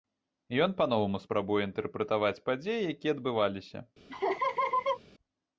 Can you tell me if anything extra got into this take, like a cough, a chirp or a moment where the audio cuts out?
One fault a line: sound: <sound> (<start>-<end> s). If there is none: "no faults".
sound: laugh (4.1-5.0 s)